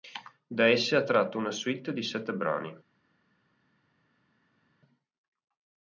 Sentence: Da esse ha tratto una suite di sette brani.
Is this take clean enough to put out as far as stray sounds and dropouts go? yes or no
yes